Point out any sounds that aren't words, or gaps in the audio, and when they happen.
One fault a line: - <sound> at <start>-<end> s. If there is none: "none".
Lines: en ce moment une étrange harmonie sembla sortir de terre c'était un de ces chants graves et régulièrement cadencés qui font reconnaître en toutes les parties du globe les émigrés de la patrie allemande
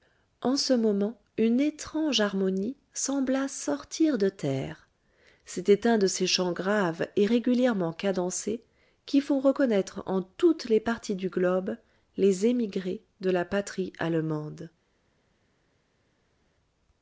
none